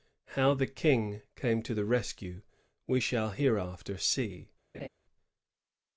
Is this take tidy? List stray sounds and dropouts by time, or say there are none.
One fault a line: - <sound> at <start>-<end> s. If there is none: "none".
- laugh at 4.7-4.9 s